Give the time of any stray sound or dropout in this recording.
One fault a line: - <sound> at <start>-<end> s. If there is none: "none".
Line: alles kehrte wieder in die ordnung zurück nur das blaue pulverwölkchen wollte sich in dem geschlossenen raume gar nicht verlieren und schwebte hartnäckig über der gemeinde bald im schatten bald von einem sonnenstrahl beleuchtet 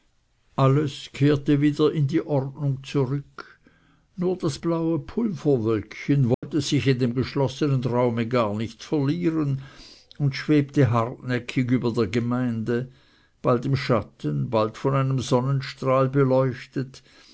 - dropout at 6.3-6.4 s